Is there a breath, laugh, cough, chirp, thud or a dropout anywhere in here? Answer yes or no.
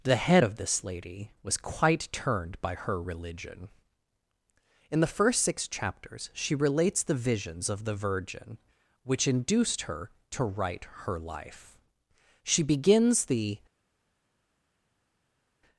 no